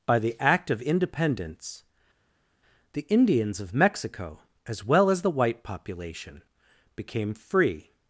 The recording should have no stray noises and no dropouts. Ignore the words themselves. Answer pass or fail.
pass